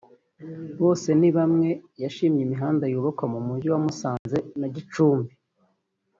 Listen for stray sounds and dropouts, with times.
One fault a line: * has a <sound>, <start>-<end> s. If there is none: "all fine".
* has a dropout, 4.2-4.3 s